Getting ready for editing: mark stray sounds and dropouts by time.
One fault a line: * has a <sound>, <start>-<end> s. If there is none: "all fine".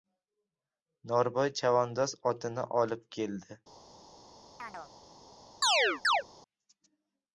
* has a chirp, 4.6-4.9 s
* has a chirp, 5.6-6.2 s